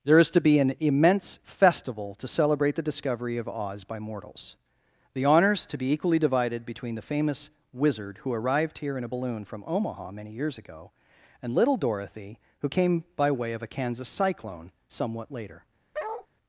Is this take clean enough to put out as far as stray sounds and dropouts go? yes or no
no